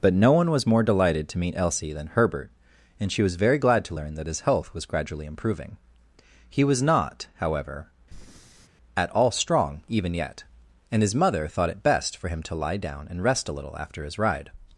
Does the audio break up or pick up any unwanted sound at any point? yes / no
yes